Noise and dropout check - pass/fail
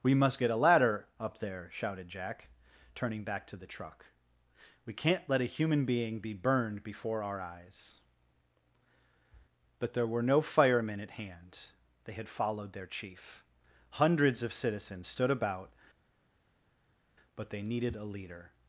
pass